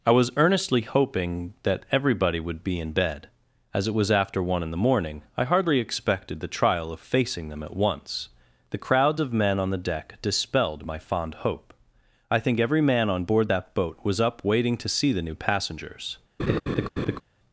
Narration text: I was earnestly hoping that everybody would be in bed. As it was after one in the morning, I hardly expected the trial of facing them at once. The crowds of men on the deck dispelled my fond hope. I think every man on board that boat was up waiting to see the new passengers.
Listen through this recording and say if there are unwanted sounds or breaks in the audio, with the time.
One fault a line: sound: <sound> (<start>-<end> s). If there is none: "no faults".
sound: laugh (16.4-17.2 s)